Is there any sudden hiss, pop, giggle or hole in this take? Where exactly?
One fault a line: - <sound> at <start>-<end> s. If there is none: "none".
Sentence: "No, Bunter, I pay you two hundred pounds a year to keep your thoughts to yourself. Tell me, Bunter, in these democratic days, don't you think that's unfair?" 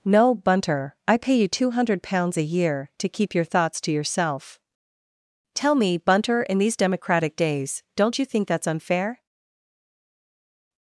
none